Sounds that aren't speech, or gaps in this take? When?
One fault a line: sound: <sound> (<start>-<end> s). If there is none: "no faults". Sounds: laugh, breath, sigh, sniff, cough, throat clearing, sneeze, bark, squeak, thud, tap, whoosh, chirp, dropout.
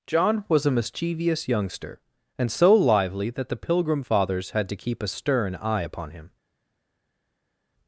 no faults